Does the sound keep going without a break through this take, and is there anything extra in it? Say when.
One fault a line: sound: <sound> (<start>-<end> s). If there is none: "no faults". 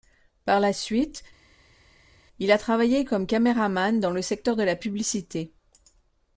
no faults